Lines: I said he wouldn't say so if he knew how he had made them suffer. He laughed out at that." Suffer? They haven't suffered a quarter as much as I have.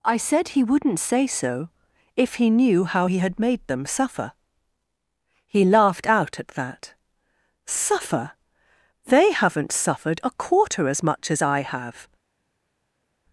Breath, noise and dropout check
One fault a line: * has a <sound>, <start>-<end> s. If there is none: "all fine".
all fine